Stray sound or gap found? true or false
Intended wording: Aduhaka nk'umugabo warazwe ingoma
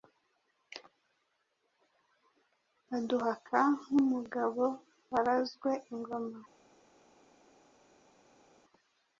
false